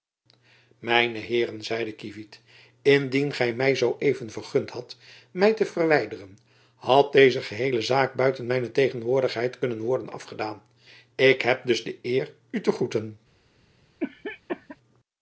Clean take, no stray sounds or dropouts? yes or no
no